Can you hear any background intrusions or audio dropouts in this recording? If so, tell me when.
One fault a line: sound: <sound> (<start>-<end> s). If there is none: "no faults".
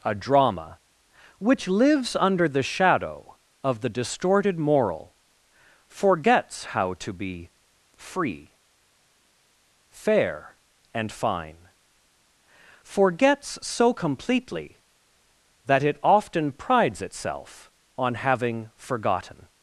no faults